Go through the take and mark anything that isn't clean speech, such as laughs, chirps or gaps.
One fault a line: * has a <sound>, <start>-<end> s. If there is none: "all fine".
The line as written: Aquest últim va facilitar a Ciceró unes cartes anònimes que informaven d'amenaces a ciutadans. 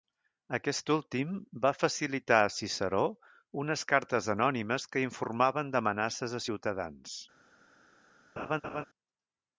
* has a laugh, 8.4-8.8 s